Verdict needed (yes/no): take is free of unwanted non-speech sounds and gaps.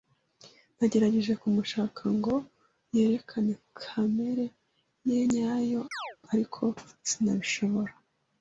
no